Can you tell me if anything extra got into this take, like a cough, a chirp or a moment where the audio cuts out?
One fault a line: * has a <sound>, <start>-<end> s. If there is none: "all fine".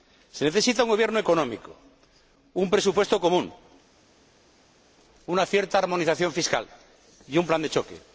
all fine